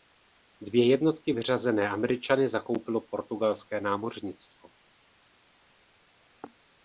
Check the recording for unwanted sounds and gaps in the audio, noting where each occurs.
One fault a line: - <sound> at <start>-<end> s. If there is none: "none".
none